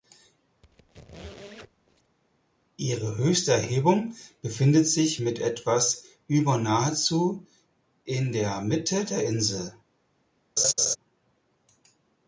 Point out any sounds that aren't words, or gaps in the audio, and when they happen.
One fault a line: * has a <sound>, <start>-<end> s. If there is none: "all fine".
* has a squeak, 0.6-2.2 s
* has a laugh, 10.6-11.0 s